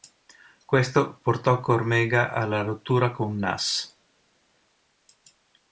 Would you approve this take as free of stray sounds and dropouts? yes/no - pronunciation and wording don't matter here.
yes